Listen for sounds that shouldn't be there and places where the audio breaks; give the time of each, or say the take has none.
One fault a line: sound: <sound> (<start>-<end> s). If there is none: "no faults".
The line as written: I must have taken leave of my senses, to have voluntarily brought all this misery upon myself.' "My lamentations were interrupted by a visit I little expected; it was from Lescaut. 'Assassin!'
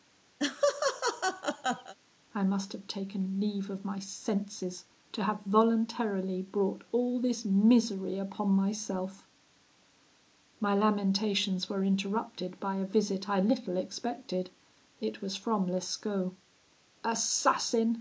sound: laugh (0.4-1.9 s)